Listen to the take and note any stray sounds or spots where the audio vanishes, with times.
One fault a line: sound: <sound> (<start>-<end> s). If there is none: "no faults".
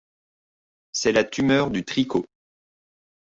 no faults